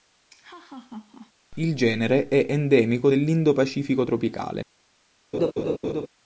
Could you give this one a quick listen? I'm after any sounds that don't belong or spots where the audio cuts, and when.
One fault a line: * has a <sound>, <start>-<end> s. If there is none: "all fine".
* has a laugh, 0.3-1.3 s
* has a laugh, 5.3-6.1 s